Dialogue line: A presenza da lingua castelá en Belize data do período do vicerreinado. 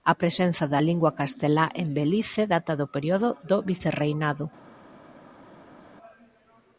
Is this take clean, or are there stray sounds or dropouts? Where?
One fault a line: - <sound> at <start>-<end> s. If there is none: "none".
none